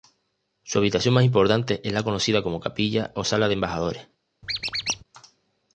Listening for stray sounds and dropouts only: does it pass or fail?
fail